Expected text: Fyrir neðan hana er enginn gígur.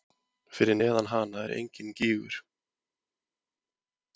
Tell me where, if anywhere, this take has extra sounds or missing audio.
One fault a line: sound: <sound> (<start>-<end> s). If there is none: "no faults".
no faults